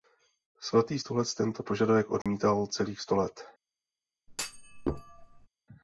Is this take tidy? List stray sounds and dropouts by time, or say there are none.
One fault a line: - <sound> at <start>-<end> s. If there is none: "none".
- dropout at 2.2-2.3 s
- thud at 4.3-5.5 s